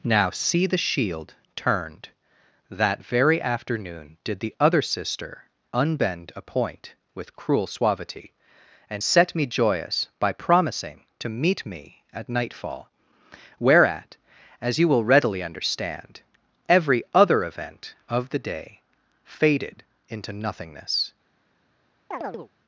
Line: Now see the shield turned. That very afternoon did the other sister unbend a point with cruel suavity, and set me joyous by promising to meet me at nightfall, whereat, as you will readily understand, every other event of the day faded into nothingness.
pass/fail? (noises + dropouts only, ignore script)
fail